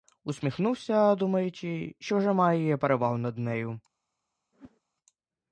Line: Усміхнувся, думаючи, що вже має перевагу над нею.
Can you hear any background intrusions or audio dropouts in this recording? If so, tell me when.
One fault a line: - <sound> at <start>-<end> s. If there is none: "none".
- whoosh at 4.5-4.8 s